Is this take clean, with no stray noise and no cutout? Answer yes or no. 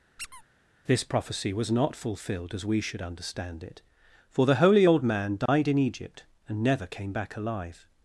no